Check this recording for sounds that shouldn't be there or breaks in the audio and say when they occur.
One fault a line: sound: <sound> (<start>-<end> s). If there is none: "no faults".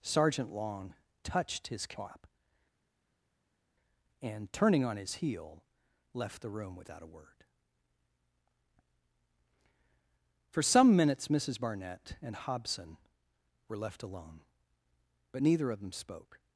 no faults